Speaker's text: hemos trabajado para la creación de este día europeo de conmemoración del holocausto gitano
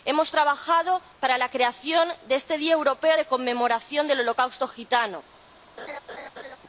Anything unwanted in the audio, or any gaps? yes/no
yes